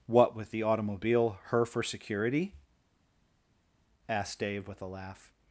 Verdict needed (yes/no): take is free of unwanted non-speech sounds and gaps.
yes